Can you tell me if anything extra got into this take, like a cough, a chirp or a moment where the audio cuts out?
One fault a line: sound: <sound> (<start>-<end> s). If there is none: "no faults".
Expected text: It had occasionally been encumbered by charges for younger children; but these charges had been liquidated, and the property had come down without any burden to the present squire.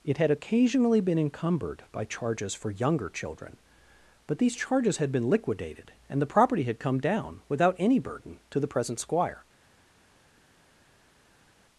no faults